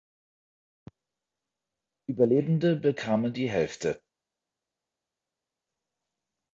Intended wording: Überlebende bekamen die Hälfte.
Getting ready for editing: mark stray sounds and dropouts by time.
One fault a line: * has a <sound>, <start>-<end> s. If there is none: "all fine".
all fine